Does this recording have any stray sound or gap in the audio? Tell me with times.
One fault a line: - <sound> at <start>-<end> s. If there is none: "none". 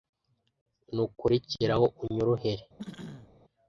- throat clearing at 2.8-3.3 s